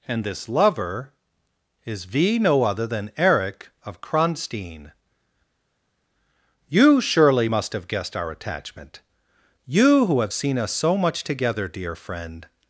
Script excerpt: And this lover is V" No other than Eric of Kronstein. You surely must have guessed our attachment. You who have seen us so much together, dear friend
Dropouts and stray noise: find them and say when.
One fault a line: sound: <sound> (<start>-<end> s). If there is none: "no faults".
no faults